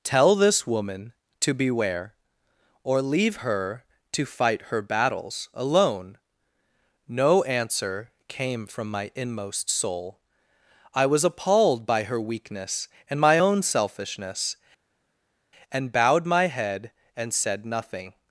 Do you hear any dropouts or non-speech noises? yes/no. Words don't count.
no